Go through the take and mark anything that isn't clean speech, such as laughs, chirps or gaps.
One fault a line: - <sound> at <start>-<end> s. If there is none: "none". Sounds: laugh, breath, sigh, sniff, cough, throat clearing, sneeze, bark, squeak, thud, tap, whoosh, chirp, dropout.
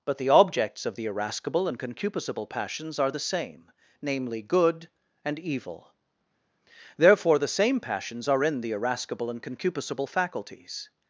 none